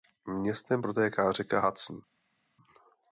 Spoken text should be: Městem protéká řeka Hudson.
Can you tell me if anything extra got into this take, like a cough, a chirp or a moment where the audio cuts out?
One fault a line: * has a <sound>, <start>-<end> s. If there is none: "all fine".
all fine